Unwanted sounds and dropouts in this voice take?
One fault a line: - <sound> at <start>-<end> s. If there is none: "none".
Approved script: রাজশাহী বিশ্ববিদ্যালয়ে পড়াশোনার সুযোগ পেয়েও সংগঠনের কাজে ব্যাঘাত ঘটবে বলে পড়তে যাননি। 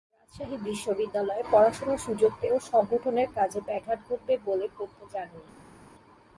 none